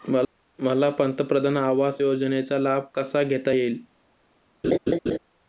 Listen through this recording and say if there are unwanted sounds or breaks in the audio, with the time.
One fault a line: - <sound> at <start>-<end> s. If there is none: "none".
- laugh at 4.6-5.2 s